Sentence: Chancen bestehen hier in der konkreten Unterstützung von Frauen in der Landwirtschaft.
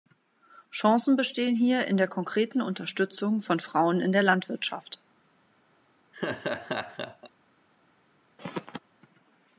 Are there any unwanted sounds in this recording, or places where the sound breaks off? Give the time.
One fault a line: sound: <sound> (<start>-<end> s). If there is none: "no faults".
sound: laugh (6.1-7.3 s)
sound: throat clearing (8.4-8.8 s)